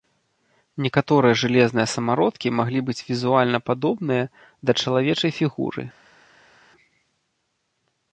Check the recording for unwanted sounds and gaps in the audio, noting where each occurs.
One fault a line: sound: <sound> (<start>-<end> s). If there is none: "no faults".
no faults